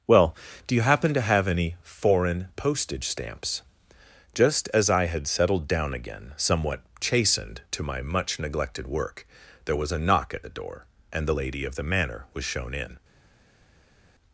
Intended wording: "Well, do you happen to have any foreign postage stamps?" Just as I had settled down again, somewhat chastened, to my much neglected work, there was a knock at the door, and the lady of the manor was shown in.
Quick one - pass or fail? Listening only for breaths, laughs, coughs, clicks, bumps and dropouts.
pass